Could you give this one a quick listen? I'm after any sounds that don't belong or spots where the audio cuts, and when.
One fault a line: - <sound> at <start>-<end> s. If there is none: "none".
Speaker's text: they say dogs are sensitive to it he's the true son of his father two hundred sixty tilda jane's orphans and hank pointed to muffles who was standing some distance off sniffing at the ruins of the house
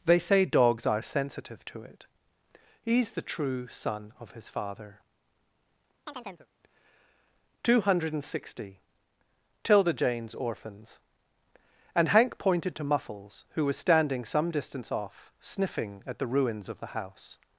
- chirp at 6.1-6.5 s